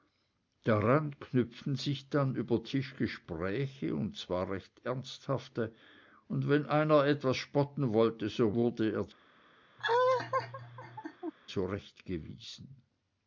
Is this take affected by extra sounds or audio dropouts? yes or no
yes